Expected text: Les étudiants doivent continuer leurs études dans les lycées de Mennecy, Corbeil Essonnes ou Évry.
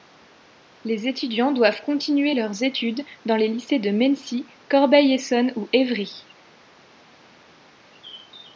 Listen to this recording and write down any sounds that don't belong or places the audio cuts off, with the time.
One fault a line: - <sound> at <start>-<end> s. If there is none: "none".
none